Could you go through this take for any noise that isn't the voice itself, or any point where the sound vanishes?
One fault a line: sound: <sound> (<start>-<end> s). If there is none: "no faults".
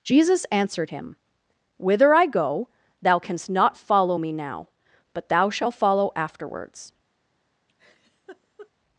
sound: laugh (7.7-8.7 s)